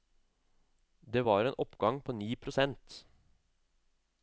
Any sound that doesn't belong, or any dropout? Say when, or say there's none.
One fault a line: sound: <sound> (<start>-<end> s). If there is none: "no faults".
no faults